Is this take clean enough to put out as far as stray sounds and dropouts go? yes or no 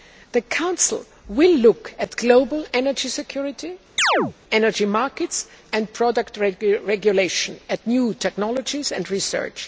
no